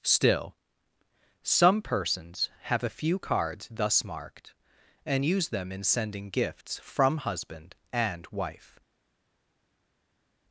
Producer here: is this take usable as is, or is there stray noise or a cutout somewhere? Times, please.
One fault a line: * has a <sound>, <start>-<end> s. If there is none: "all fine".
all fine